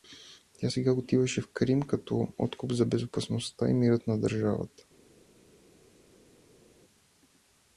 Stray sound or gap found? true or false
false